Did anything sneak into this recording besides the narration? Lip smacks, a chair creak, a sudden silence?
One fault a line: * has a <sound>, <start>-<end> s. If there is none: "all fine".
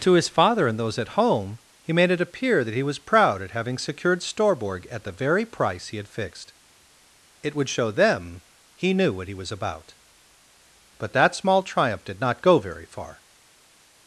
all fine